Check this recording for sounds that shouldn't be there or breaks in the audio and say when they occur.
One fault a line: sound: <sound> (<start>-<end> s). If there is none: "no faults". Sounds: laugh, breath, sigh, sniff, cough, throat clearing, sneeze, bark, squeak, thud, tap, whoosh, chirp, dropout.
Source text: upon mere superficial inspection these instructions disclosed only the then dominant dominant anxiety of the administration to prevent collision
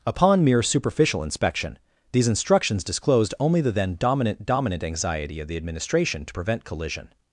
no faults